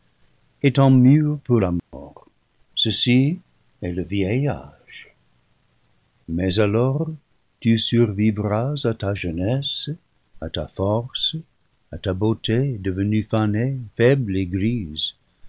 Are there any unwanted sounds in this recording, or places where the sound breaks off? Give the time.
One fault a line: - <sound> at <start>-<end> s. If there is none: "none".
- dropout at 1.8-1.9 s